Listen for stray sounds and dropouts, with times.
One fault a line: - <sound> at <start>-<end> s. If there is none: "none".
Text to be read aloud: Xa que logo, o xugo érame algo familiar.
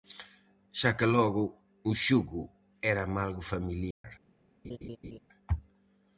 - dropout at 3.9-4.0 s
- laugh at 4.6-5.2 s